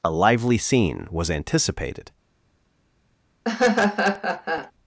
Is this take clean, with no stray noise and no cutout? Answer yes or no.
no